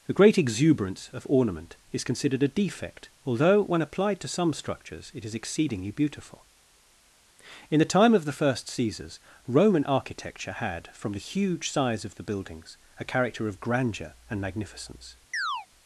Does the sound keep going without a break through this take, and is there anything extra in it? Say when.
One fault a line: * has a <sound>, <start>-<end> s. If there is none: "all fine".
* has a chirp, 15.3-15.7 s